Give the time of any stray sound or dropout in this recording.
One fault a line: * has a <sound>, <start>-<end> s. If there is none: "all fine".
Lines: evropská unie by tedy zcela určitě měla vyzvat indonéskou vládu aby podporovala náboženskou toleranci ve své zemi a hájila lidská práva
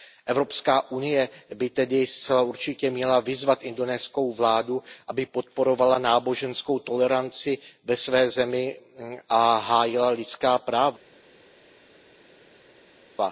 all fine